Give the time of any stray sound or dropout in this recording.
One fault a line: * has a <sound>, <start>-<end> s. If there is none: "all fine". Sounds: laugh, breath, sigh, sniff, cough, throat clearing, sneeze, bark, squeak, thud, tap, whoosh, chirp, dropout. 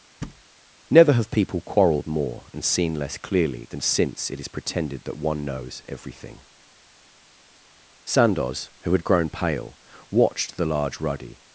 * has a thud, 0.2-0.4 s